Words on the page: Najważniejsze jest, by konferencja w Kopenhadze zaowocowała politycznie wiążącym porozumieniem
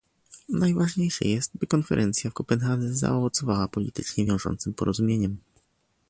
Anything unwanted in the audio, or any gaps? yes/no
no